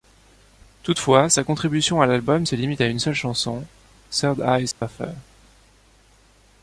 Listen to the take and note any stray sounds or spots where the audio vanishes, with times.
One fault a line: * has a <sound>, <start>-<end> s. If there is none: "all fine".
* has a dropout, 4.7-4.8 s